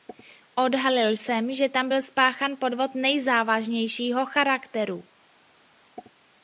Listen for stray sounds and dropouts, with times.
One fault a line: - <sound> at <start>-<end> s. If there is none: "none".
none